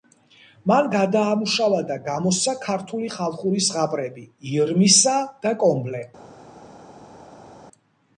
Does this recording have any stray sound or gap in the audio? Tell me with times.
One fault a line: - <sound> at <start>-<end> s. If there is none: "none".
none